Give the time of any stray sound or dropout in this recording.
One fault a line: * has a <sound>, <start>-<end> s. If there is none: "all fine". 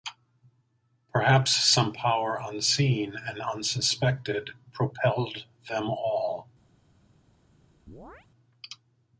* has a chirp, 7.9-8.3 s